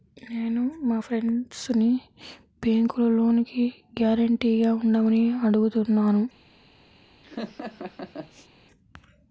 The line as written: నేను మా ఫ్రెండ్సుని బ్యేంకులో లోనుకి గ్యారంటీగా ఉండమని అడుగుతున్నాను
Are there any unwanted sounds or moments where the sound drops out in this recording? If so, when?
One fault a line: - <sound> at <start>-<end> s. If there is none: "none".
- laugh at 7.2-8.5 s